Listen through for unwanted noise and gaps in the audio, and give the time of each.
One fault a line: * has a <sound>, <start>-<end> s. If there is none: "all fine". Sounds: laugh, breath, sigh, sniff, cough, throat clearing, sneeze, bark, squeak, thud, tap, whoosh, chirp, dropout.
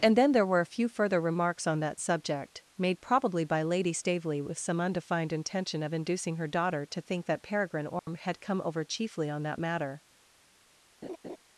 * has a dropout, 8.0-8.1 s
* has a laugh, 11.0-11.4 s